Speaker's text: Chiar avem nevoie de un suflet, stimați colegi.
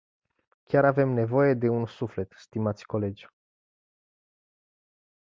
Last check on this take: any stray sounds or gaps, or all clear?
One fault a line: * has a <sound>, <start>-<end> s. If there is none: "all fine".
all fine